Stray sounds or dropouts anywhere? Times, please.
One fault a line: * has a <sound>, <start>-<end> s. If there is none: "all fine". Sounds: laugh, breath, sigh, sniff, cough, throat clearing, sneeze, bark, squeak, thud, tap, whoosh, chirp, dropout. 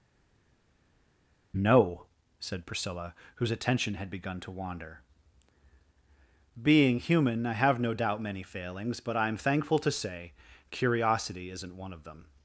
all fine